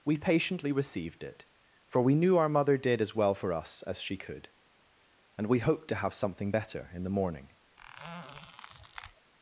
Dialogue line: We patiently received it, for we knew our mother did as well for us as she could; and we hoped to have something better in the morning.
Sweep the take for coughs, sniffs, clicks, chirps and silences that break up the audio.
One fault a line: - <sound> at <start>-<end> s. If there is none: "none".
- squeak at 7.8-9.3 s